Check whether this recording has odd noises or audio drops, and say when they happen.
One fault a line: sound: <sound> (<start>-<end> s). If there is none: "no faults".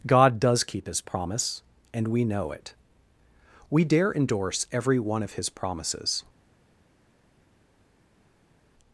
no faults